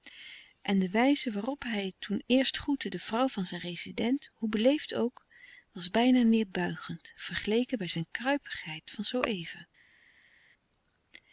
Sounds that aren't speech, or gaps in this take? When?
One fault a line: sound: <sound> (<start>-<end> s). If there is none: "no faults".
no faults